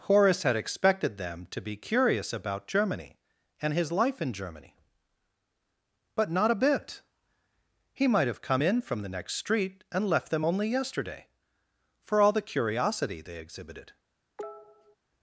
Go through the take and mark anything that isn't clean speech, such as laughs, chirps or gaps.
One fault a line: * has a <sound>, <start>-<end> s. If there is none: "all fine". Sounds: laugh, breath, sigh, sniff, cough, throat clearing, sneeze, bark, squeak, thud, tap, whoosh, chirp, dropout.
* has a cough, 14.4-15.0 s